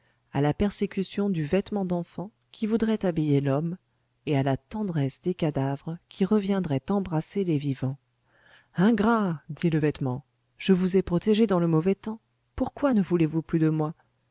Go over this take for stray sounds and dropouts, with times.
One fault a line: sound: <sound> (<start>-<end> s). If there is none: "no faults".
no faults